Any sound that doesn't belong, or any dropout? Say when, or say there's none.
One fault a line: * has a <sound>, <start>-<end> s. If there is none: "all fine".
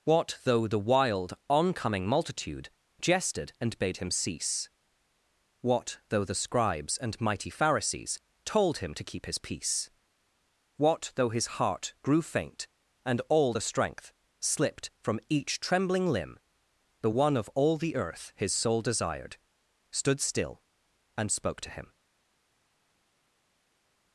all fine